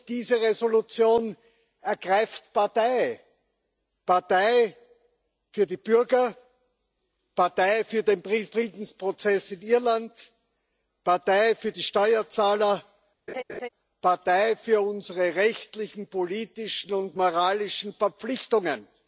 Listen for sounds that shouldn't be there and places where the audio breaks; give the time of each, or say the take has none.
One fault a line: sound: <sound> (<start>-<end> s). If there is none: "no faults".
sound: laugh (13.3-13.7 s)